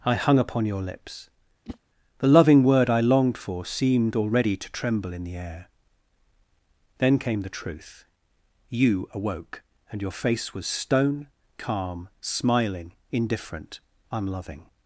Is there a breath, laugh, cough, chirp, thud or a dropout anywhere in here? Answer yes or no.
yes